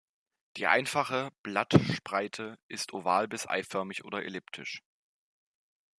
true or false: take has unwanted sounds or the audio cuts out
false